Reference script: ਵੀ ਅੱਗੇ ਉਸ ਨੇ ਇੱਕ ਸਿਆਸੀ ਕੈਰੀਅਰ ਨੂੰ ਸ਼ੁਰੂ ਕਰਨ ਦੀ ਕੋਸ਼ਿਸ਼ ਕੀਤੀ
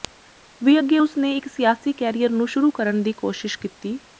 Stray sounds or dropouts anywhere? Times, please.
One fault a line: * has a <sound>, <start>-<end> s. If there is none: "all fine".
all fine